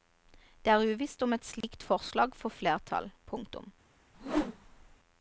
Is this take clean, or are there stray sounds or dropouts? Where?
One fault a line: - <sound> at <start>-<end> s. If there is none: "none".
- dropout at 1.6-1.6 s
- whoosh at 4.1-5.0 s